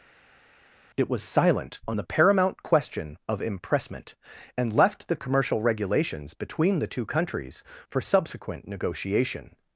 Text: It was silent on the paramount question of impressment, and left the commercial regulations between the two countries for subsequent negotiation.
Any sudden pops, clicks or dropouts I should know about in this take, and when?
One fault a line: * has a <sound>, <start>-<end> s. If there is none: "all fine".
all fine